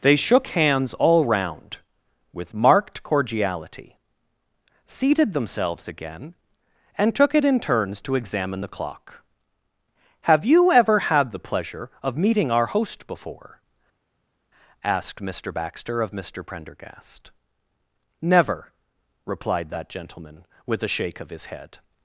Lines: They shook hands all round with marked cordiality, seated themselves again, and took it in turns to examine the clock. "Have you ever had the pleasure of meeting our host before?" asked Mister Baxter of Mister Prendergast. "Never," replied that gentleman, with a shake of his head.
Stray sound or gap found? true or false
false